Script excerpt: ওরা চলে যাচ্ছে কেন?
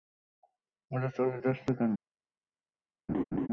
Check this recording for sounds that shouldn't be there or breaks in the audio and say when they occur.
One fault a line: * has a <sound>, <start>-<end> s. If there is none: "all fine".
* has a laugh, 3.1-3.5 s